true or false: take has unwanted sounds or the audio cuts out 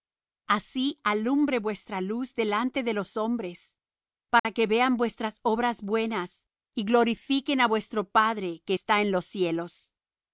true